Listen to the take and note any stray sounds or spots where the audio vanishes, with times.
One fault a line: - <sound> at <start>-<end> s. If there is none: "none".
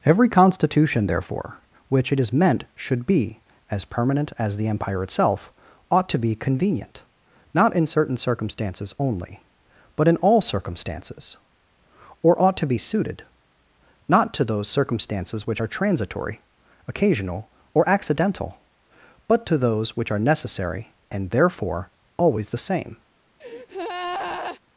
- breath at 23.4-24.6 s